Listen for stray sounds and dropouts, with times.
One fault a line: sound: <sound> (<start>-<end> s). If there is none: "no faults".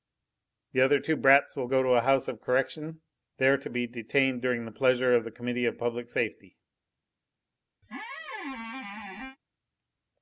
sound: squeak (7.8-9.4 s)